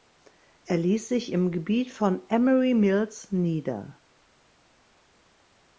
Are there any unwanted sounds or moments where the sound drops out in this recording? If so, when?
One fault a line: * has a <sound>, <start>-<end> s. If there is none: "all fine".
all fine